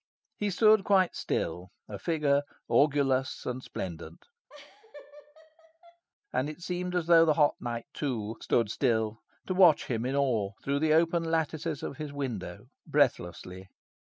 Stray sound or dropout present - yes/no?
yes